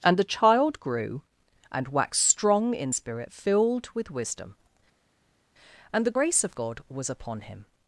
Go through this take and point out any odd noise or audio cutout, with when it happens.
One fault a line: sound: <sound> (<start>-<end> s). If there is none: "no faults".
no faults